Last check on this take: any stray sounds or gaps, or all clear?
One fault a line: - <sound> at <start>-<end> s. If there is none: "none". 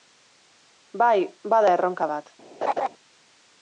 - laugh at 2.6-2.9 s